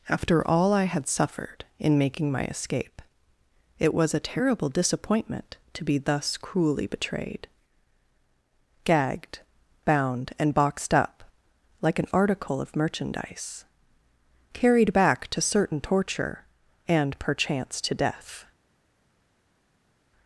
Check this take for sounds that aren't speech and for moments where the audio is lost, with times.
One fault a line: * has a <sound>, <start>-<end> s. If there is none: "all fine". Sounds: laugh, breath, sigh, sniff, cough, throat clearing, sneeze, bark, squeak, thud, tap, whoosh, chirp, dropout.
all fine